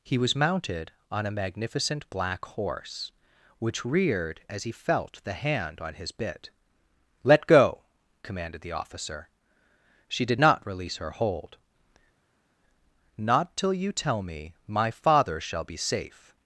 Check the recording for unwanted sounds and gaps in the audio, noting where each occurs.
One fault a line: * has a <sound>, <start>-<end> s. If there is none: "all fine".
all fine